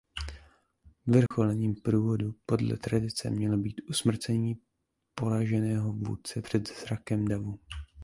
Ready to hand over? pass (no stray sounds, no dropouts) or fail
fail